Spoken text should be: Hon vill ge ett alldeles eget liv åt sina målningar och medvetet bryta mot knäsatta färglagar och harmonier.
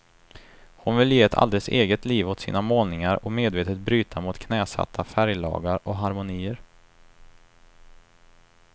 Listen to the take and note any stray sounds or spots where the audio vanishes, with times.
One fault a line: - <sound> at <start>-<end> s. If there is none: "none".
none